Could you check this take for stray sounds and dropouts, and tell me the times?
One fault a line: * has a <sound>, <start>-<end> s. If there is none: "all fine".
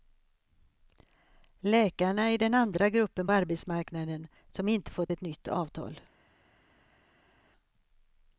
all fine